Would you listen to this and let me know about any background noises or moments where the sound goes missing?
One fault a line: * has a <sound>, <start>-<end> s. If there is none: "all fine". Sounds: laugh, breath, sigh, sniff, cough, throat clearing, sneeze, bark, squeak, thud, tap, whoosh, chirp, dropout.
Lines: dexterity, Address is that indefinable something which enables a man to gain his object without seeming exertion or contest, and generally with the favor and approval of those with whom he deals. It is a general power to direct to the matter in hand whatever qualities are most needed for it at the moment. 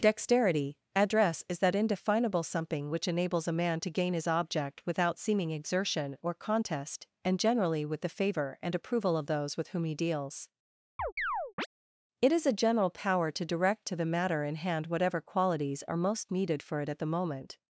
* has a chirp, 11.0-11.7 s